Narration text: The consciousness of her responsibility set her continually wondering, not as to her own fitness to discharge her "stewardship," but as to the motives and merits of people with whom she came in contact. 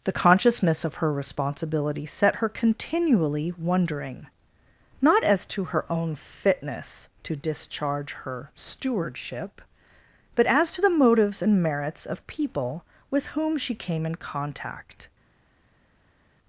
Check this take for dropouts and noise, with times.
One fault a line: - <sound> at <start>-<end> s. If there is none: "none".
none